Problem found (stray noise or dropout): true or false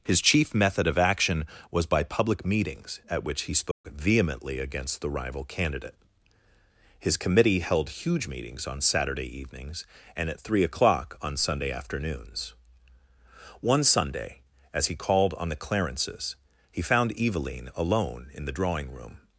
true